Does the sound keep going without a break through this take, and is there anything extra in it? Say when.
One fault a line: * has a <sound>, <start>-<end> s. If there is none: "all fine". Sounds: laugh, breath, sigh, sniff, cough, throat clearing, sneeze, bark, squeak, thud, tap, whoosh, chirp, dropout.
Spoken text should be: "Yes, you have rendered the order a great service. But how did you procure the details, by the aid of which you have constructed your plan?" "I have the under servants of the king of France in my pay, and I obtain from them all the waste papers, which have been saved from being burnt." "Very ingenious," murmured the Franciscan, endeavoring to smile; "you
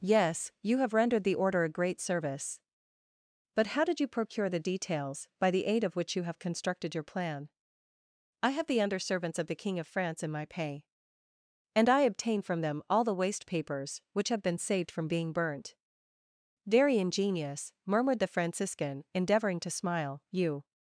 all fine